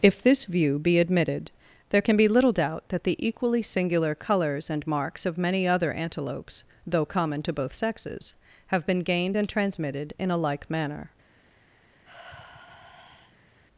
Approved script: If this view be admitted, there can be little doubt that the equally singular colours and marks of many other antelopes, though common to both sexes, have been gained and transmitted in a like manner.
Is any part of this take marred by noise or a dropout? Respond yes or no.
yes